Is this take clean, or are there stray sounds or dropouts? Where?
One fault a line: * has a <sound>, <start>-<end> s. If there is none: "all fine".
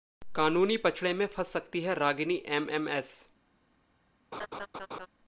* has a laugh, 4.3-5.1 s